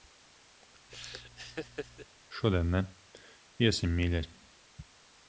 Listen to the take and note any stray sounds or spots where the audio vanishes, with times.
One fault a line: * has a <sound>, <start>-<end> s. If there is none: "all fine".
* has a laugh, 0.9-2.1 s